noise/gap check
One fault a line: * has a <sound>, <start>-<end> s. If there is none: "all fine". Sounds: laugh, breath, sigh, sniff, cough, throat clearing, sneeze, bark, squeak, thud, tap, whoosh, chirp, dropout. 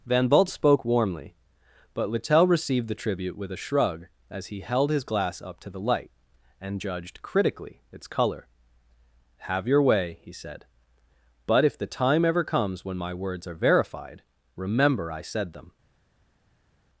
all fine